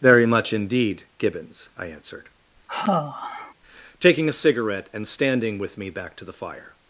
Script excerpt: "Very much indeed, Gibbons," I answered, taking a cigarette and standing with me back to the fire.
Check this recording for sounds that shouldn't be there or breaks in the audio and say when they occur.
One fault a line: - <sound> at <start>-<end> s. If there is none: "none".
- sigh at 2.7-3.5 s